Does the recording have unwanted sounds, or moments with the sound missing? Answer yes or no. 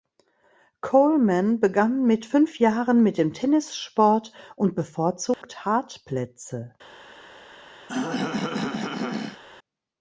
yes